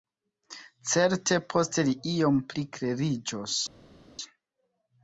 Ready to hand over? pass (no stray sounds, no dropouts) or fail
pass